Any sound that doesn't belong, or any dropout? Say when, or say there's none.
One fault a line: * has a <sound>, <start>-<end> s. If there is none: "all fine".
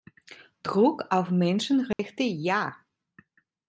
* has a dropout, 1.9-2.0 s